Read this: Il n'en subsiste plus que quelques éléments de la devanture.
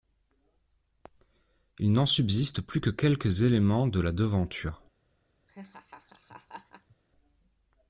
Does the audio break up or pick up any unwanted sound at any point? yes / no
yes